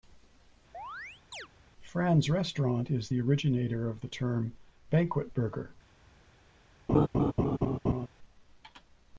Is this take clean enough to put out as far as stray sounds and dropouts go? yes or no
no